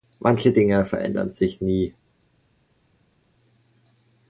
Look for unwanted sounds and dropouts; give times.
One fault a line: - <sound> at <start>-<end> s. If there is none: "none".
none